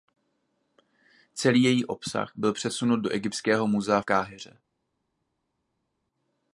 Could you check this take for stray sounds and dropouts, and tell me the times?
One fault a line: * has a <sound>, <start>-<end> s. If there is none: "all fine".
all fine